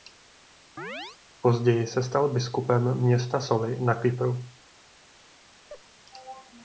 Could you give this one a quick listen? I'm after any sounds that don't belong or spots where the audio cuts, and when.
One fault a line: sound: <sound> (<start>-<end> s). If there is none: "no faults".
sound: chirp (0.8-1.2 s)
sound: laugh (5.7-5.8 s)